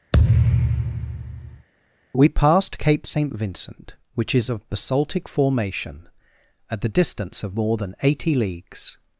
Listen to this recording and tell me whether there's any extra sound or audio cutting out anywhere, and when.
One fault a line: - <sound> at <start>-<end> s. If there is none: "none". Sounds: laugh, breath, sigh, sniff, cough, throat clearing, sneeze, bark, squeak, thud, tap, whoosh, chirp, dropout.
- thud at 0.1-1.7 s